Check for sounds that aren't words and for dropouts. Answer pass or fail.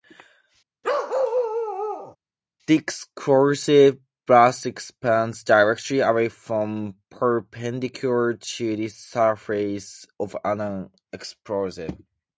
fail